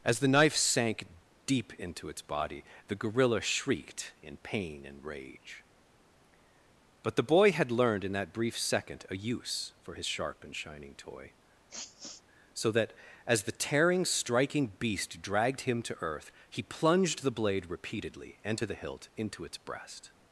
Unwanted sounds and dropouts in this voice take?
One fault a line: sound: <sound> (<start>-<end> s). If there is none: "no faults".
sound: sniff (11.7-12.2 s)